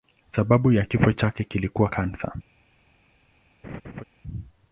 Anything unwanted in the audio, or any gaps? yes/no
yes